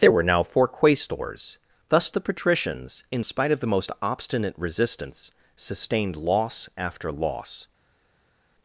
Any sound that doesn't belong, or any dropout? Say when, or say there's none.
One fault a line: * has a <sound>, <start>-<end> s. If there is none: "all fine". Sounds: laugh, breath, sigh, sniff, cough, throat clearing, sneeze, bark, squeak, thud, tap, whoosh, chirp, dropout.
all fine